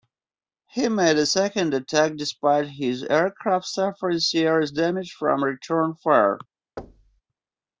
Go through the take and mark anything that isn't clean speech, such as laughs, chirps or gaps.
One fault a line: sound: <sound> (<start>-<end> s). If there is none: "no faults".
sound: thud (6.8-7.2 s)